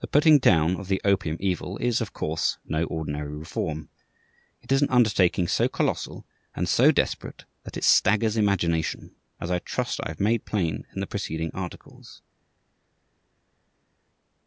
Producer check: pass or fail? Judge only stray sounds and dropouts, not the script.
pass